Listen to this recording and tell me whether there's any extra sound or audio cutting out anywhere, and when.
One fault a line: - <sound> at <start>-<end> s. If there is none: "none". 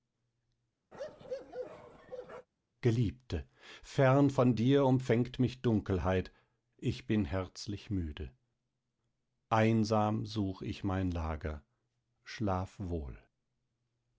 - bark at 0.9-2.5 s